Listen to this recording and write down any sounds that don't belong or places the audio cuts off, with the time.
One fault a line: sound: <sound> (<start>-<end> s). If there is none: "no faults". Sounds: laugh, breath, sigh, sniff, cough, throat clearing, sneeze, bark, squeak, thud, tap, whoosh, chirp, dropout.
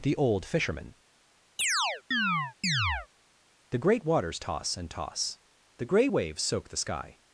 sound: chirp (1.6-3.1 s)